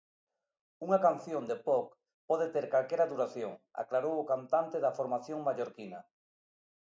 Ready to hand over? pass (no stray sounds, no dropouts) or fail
pass